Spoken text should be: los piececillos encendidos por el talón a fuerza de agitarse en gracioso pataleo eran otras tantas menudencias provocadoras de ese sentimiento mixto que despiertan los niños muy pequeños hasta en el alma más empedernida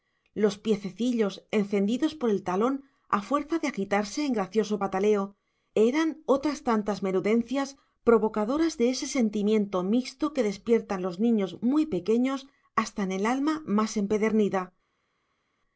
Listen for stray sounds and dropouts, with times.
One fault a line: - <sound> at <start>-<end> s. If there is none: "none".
none